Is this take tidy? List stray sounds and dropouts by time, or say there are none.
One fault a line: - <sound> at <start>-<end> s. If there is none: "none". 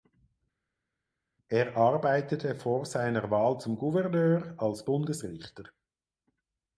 none